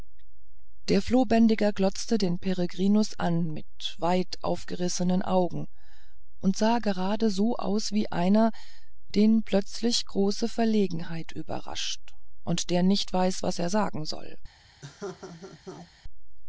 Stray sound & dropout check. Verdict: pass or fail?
fail